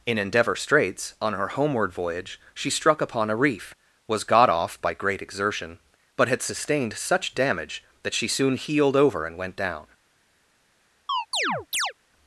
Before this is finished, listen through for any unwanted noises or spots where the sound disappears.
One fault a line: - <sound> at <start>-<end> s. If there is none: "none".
- chirp at 11.1-11.9 s